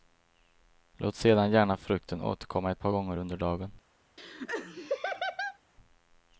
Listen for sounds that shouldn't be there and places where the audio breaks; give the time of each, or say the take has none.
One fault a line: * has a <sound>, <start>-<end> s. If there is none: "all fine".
* has a laugh, 4.2-5.6 s